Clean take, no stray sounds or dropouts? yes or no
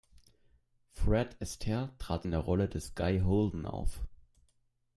yes